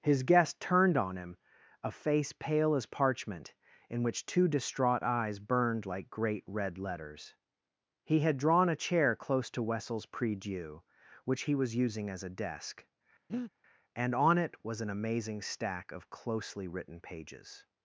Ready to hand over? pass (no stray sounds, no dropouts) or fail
fail